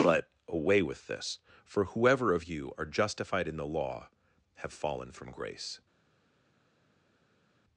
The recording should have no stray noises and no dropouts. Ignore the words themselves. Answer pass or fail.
pass